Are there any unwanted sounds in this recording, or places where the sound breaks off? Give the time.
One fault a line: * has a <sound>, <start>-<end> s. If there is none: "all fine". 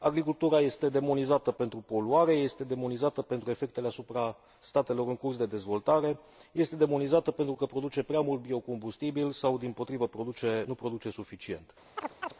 * has a chirp, 12.0-12.3 s